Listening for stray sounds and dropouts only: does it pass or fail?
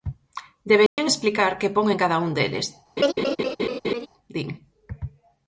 fail